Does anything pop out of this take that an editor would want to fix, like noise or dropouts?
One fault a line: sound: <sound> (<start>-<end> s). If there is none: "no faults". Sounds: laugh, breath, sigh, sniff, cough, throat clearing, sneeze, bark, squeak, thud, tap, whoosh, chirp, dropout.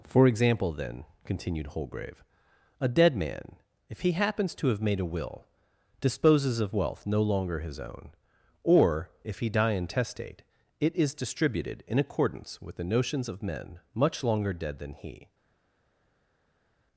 no faults